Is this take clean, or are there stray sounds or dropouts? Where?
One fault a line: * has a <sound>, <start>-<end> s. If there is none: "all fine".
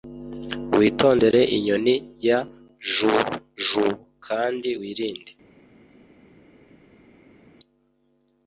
all fine